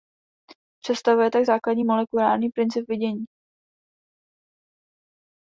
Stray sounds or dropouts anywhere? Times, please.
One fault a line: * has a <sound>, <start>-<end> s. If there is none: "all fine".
all fine